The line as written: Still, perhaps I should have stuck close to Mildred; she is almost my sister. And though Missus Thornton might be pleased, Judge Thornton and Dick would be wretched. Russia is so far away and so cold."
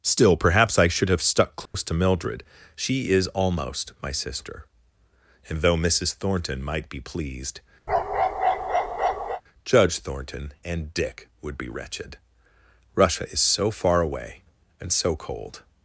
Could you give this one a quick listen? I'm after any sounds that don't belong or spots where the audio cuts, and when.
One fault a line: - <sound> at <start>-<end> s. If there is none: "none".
- dropout at 1.7-1.7 s
- bark at 7.9-9.4 s